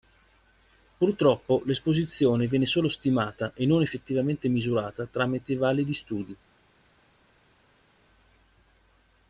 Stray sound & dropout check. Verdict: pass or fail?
pass